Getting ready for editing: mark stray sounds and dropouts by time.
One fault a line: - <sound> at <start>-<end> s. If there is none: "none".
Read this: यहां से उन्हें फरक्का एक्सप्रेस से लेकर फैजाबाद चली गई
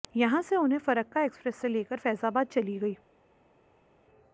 none